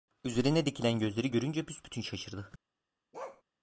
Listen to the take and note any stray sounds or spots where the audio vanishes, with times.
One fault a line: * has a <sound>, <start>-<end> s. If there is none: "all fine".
* has a bark, 3.1-3.4 s